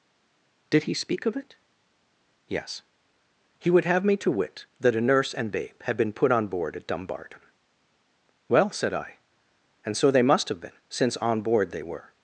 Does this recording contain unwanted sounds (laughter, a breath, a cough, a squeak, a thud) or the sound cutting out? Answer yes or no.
no